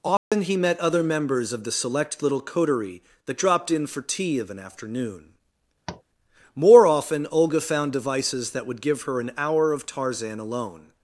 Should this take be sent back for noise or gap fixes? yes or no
yes